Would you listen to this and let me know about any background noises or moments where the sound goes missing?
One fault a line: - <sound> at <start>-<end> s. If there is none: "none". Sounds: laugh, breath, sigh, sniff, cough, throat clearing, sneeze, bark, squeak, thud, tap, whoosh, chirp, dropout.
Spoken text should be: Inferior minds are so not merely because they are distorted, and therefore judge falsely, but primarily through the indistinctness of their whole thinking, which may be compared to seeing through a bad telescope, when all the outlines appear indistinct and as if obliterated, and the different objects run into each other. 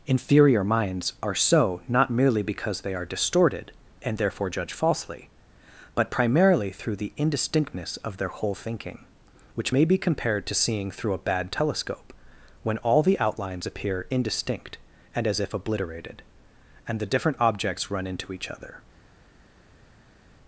none